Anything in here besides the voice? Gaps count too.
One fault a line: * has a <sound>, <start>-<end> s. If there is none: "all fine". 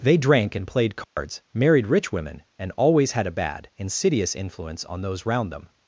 * has a dropout, 1.0-1.2 s